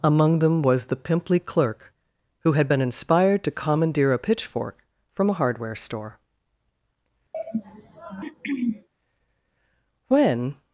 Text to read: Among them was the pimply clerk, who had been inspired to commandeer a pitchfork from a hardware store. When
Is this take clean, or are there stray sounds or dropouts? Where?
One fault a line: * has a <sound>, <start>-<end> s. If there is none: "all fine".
* has a throat clearing, 7.3-8.9 s